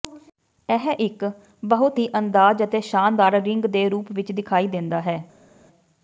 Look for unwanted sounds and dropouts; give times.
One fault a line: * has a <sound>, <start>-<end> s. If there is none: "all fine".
all fine